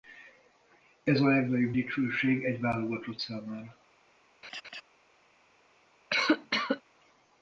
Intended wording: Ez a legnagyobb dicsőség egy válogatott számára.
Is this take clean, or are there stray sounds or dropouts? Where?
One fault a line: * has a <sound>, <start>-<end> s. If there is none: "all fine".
* has a laugh, 4.4-4.8 s
* has a cough, 6.1-6.8 s